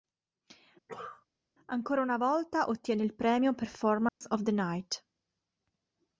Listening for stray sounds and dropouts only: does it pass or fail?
fail